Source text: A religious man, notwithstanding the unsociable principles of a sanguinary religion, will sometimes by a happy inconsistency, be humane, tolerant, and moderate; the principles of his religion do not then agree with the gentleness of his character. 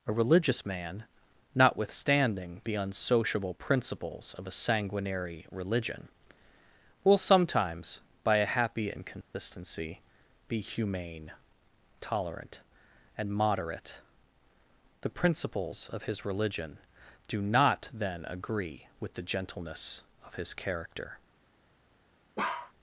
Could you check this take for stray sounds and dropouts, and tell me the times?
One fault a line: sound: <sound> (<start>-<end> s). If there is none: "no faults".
sound: dropout (9.2-9.3 s)
sound: bark (22.4-22.7 s)